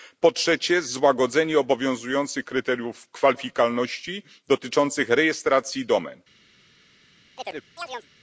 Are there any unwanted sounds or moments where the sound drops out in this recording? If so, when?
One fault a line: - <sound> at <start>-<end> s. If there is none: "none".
- chirp at 7.4-8.1 s